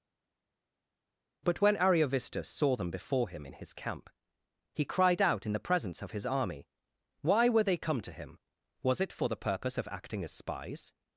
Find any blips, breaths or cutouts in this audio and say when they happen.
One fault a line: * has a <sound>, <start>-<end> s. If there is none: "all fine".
all fine